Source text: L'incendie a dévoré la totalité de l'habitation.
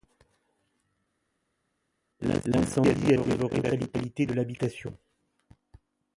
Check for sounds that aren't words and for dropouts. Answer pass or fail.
pass